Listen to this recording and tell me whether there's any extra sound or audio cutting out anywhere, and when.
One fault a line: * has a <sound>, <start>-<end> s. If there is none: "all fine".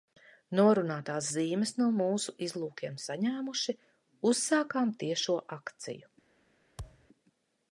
* has a thud, 6.8-7.1 s